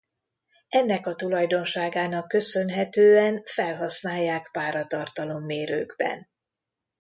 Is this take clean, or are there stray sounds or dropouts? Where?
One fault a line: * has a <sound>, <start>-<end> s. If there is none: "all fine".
all fine